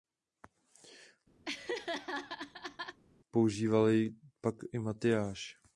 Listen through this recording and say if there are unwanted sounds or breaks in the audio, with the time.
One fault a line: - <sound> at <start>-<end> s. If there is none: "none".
- laugh at 1.4-3.0 s